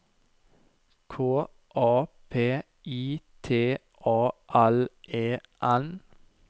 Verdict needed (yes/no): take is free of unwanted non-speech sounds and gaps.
yes